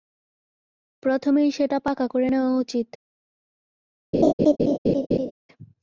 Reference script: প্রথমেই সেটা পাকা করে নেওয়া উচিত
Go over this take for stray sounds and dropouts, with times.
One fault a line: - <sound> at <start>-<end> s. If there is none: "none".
- laugh at 4.1-5.3 s